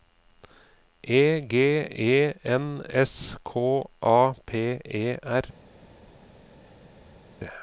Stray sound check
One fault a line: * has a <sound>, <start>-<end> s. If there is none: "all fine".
all fine